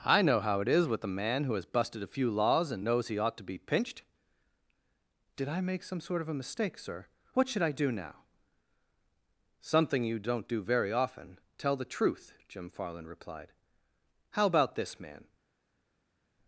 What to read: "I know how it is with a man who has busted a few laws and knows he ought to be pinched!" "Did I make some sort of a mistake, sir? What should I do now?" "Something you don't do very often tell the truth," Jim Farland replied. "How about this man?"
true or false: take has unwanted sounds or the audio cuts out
false